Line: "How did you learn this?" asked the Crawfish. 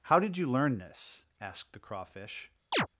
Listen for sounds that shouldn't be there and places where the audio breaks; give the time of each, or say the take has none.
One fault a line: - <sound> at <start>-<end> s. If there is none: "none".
- chirp at 2.7-2.9 s